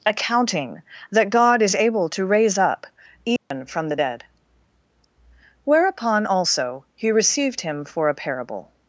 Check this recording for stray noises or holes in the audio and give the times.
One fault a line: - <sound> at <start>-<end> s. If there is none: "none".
- dropout at 3.4-3.5 s